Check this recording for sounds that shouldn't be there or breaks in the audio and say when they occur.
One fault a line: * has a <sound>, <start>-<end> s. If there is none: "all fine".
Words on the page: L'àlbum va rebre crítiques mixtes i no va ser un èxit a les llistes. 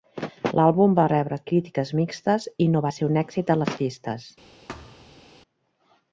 * has a thud, 4.7-5.2 s